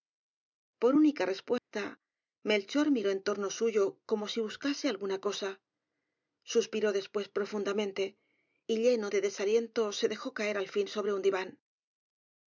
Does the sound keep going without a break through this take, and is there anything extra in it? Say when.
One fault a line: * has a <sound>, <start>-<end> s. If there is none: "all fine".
* has a dropout, 1.6-1.7 s